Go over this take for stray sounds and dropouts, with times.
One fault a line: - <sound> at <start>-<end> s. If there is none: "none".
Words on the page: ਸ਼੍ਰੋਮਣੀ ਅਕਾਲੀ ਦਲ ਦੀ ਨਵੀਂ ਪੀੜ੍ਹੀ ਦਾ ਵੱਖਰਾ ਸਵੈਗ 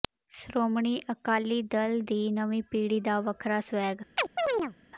- chirp at 4.2-4.8 s